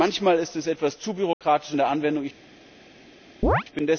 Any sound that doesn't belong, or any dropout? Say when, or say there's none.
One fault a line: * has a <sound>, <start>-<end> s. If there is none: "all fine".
* has a dropout, 1.3-1.4 s
* has a chirp, 3.4-3.6 s